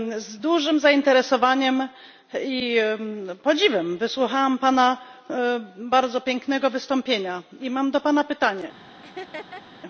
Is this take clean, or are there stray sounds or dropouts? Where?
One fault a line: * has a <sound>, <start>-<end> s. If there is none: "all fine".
* has a laugh, 9.0-9.6 s